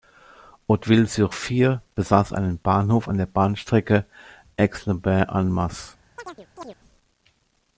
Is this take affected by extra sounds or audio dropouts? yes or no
yes